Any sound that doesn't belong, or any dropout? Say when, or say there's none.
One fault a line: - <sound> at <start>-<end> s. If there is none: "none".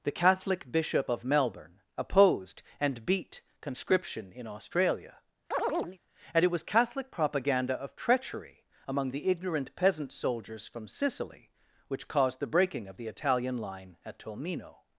- chirp at 5.5-6.0 s